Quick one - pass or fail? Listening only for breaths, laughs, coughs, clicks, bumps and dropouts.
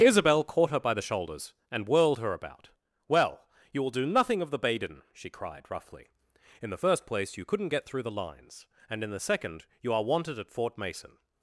pass